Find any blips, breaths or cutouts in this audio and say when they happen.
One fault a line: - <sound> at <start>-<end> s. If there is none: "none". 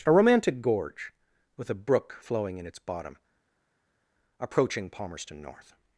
none